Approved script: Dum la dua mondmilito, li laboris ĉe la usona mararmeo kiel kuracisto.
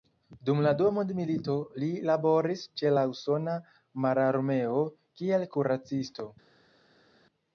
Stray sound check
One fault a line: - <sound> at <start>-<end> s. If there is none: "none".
none